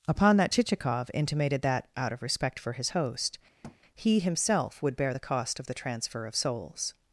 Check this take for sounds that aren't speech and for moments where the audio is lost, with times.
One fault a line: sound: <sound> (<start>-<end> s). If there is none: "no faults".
sound: thud (3.6-3.8 s)